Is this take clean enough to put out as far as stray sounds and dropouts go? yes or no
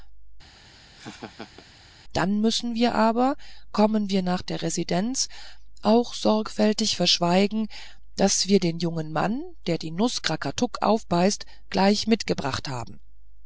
no